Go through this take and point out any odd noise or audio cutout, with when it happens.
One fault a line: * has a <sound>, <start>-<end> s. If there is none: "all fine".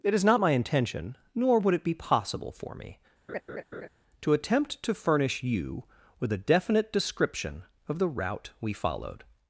* has a laugh, 3.3-3.9 s